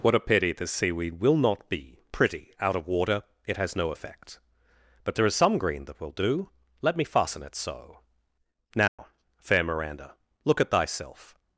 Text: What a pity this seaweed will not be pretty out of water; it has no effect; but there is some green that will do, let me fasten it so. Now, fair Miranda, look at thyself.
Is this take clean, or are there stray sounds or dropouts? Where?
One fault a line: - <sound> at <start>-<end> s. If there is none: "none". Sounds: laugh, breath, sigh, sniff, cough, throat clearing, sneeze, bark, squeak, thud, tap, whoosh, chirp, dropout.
- dropout at 8.9-9.0 s